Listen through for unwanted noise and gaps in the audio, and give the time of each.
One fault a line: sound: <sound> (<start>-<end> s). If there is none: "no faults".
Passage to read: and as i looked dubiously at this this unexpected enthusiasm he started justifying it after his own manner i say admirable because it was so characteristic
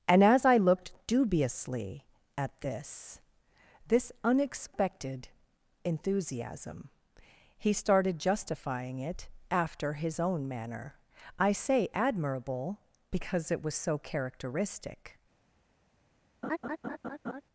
sound: laugh (16.4-17.4 s)